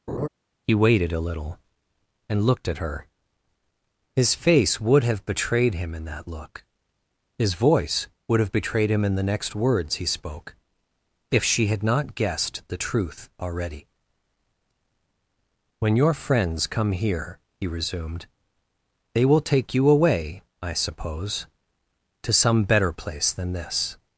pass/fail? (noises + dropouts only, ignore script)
fail